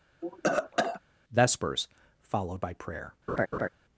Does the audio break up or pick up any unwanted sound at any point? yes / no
yes